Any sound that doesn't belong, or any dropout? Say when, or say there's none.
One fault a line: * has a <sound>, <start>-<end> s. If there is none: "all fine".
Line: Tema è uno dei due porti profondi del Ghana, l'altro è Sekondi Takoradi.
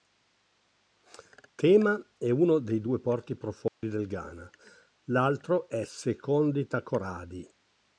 * has a dropout, 3.7-3.8 s